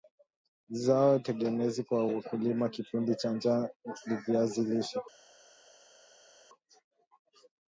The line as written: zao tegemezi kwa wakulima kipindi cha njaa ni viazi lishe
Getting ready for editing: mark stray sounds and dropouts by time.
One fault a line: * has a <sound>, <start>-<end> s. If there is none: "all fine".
all fine